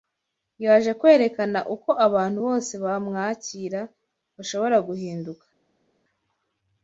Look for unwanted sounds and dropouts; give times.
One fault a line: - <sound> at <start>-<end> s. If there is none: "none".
none